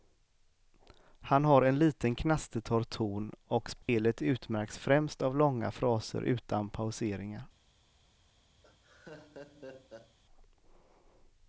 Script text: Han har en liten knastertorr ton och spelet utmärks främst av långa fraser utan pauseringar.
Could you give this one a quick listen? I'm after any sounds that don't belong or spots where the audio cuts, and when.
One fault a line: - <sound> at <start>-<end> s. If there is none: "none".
- dropout at 3.8-3.9 s
- laugh at 8.6-10.2 s